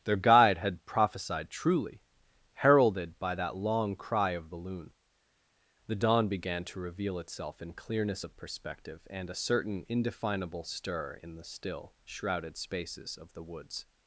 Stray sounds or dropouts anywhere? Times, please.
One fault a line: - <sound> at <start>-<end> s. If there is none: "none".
none